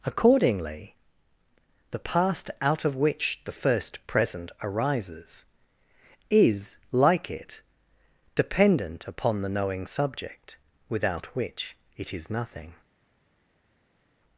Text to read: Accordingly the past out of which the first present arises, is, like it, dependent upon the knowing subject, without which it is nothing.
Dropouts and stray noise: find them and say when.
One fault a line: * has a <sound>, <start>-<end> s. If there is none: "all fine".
all fine